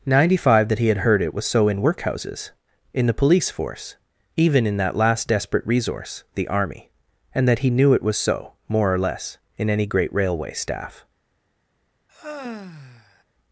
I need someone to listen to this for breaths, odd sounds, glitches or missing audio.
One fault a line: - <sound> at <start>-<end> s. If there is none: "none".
- sigh at 12.1-13.2 s